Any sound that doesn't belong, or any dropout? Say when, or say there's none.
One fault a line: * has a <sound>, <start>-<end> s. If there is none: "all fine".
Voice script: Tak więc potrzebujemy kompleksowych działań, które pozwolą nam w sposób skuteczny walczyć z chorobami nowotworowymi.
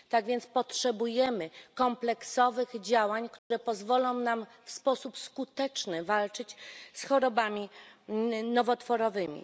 * has a dropout, 3.4-3.5 s